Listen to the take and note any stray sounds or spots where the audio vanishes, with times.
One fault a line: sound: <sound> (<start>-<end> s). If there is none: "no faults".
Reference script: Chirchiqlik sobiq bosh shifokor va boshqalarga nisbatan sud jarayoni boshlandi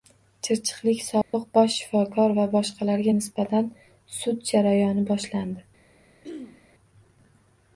sound: dropout (1.2-1.3 s)
sound: throat clearing (6.2-6.7 s)